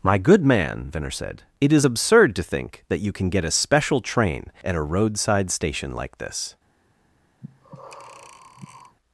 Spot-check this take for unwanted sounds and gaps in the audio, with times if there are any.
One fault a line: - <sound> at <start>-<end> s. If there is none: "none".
- breath at 7.4-9.0 s